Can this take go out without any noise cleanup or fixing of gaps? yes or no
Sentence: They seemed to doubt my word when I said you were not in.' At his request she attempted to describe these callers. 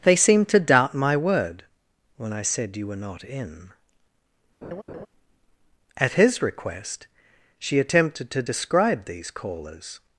no